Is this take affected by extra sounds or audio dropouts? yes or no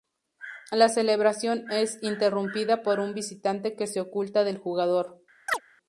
yes